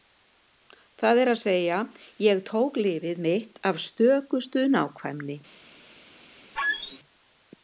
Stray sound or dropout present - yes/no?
yes